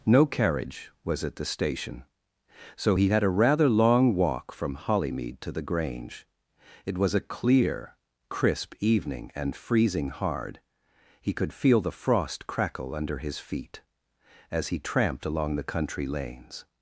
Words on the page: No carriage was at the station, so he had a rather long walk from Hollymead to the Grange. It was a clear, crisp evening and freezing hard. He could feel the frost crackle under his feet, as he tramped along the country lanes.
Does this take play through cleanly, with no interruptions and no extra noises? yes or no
yes